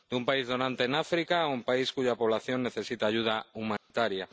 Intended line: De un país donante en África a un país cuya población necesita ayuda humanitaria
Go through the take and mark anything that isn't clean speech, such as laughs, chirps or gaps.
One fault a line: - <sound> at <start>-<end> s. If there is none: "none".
- dropout at 3.8-3.9 s